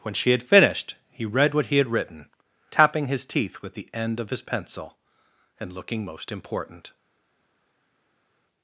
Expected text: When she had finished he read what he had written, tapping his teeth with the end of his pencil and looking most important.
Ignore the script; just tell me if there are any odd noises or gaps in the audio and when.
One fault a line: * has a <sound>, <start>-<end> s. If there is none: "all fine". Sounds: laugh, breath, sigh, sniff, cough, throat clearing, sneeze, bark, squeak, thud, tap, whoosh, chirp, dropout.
all fine